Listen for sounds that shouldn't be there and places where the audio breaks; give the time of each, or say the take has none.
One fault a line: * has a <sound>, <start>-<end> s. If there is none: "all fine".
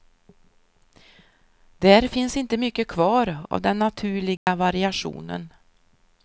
* has a dropout, 4.4-4.5 s